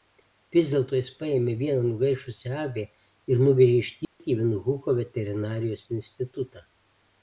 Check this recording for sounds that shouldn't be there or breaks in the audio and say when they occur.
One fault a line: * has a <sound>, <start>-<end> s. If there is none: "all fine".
* has a dropout, 4.0-4.2 s